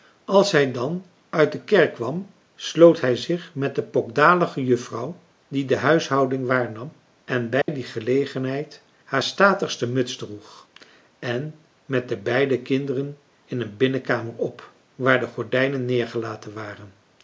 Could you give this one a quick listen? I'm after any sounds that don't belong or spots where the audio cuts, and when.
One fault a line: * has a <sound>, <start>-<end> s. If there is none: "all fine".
* has a dropout, 7.6-7.7 s